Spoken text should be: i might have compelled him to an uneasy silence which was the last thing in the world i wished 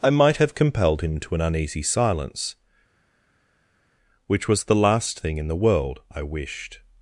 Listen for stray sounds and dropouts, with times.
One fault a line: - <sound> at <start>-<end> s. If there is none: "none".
none